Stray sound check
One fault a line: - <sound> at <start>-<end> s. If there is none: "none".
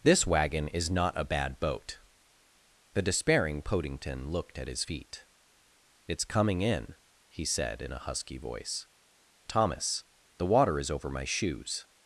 none